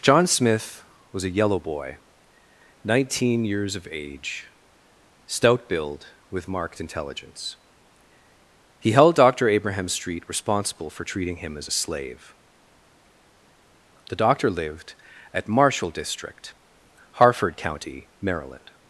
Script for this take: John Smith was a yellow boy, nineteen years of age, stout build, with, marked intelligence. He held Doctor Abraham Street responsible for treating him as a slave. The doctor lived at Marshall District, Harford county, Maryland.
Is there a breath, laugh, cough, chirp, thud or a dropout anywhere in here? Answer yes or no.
no